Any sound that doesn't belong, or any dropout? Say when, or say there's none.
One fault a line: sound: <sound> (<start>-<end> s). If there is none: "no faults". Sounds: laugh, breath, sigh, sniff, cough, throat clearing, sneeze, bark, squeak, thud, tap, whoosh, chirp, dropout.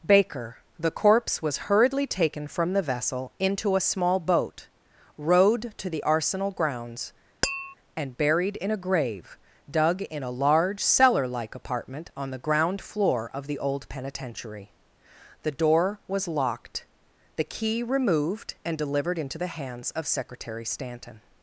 sound: tap (7.4-7.7 s)